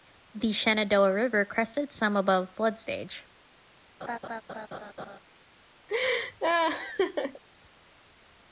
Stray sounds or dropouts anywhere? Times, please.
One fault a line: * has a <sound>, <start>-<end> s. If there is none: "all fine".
* has a laugh, 4.0-5.2 s
* has a laugh, 5.9-7.4 s